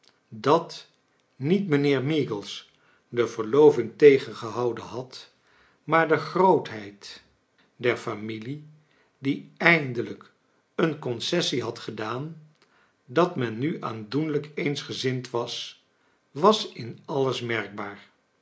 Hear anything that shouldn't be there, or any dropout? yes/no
no